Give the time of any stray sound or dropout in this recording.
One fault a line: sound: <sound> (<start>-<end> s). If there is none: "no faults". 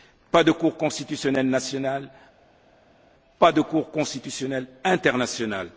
no faults